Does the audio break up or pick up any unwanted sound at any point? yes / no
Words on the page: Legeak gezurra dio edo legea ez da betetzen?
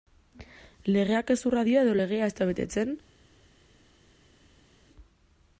no